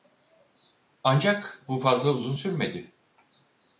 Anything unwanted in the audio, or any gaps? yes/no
no